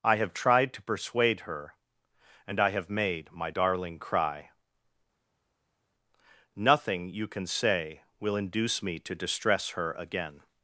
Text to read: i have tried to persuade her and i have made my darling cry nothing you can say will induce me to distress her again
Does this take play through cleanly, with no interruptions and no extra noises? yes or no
yes